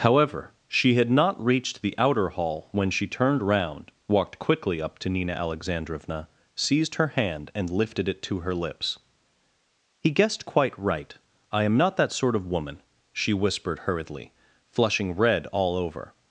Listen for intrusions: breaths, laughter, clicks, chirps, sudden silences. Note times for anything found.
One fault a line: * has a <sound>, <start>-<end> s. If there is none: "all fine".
all fine